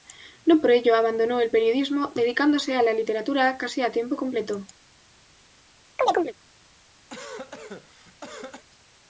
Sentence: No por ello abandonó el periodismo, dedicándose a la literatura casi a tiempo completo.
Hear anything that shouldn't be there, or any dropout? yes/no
yes